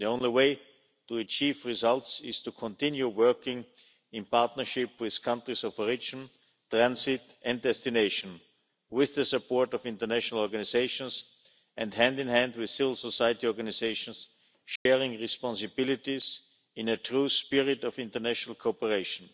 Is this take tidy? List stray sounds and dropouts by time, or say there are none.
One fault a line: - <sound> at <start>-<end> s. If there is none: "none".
- dropout at 14.8-14.9 s